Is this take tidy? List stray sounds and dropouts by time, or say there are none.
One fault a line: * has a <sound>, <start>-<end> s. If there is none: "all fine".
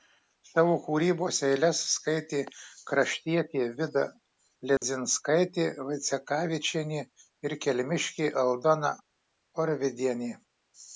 * has a dropout, 4.8-4.8 s